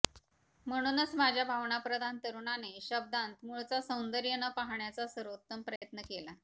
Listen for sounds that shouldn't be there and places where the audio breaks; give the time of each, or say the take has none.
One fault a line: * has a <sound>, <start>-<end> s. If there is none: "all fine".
* has a dropout, 5.8-5.8 s